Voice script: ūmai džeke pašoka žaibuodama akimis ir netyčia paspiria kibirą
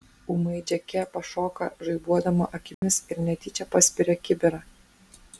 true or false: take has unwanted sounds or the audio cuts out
true